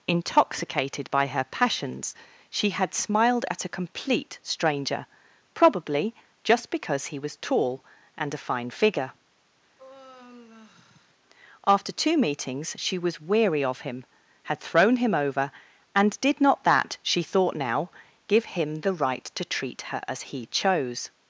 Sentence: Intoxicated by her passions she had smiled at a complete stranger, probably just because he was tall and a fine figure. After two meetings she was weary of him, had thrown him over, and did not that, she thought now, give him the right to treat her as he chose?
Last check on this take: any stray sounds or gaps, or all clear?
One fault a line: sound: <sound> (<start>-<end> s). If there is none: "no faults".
sound: sigh (9.8-11.1 s)